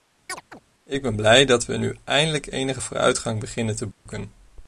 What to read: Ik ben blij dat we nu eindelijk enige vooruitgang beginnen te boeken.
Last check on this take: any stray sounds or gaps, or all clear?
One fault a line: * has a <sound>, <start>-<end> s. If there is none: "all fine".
* has a chirp, 0.3-0.6 s
* has a dropout, 3.9-4.1 s